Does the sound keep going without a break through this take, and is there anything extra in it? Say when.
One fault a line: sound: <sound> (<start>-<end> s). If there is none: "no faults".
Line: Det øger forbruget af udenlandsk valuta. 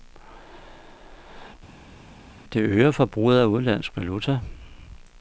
no faults